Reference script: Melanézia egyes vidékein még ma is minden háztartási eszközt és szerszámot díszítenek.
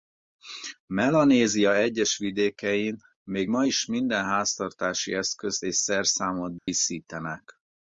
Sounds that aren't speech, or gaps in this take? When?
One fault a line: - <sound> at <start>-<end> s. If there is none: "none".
- dropout at 6.6-6.7 s